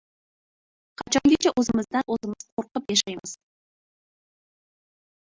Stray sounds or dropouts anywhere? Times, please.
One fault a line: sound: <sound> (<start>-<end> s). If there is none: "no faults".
no faults